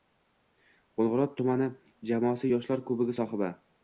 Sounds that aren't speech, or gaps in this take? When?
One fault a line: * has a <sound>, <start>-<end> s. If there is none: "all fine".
all fine